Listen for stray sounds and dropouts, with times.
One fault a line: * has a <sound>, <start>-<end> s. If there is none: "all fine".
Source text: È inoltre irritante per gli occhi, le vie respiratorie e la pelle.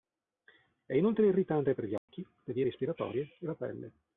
* has a dropout, 2.0-2.1 s